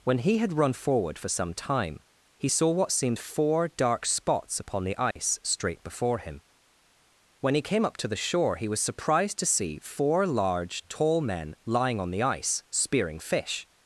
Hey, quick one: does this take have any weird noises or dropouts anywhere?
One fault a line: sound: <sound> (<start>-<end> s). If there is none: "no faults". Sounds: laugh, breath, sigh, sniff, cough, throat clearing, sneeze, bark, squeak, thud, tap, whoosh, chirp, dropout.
sound: dropout (5.1-5.2 s)